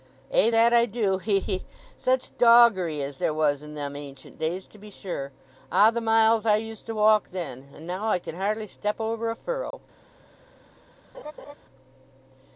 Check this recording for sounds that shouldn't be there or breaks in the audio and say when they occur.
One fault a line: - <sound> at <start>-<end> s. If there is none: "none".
- dropout at 9.7-9.7 s
- laugh at 11.1-11.5 s